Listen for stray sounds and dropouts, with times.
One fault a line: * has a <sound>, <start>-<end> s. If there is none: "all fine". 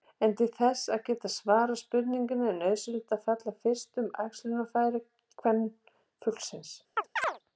* has a chirp, 7.0-7.4 s